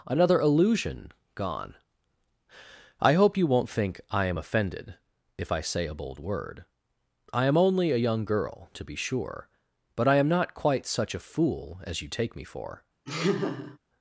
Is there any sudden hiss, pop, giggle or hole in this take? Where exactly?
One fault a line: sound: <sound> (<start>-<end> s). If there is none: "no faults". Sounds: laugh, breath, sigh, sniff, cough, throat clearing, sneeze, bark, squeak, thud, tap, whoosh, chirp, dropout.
sound: laugh (13.1-13.8 s)